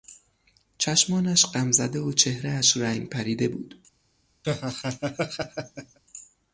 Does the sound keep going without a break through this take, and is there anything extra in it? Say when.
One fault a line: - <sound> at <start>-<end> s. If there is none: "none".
- laugh at 4.4-6.0 s